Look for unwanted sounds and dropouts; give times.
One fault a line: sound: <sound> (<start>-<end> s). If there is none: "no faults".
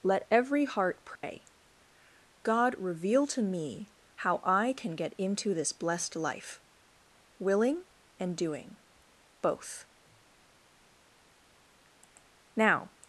sound: dropout (1.2-1.2 s)